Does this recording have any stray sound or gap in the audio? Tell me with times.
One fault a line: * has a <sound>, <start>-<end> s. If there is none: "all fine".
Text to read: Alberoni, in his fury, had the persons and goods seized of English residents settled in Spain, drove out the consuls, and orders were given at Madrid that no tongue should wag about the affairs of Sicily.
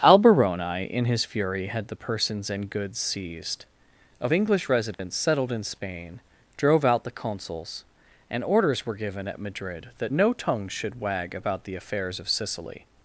* has a dropout, 4.9-5.0 s